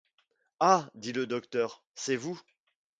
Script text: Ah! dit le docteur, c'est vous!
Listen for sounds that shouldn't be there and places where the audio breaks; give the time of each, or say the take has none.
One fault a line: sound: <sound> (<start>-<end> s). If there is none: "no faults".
no faults